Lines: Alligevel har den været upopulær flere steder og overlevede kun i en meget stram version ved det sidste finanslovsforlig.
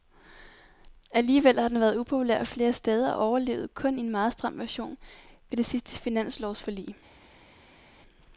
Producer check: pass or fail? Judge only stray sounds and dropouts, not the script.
pass